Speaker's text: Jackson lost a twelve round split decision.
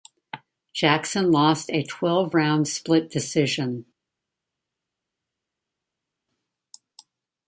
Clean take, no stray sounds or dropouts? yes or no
yes